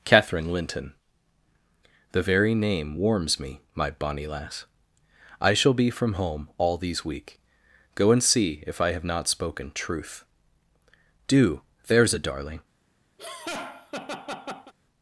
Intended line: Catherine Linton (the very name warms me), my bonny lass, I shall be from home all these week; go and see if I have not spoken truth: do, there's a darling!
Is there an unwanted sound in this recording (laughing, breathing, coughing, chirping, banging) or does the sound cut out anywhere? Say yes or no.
yes